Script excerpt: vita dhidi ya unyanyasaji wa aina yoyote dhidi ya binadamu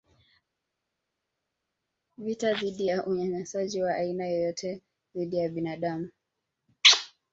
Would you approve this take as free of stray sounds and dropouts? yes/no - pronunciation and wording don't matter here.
yes